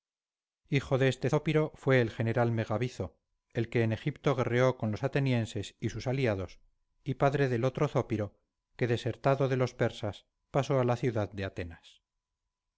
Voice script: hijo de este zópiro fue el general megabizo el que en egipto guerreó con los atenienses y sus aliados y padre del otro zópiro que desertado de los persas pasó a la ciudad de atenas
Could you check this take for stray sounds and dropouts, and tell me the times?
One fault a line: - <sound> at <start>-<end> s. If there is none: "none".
none